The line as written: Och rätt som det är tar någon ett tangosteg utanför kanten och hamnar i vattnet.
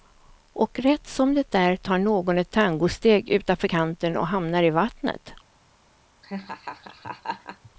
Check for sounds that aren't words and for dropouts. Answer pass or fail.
fail